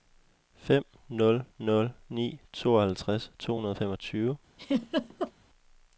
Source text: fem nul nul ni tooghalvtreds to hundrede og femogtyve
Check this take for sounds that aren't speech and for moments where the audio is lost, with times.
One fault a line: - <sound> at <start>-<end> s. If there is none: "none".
- laugh at 4.6-5.3 s